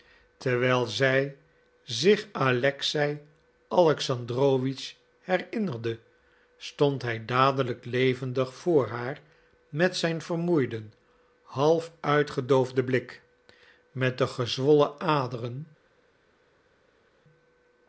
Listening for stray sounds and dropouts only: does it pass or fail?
pass